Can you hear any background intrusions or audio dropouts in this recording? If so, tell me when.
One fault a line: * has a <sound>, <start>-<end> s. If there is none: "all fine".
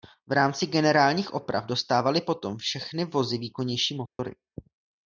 * has a dropout, 4.1-4.2 s